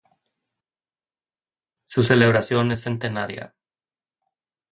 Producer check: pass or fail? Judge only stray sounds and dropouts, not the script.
pass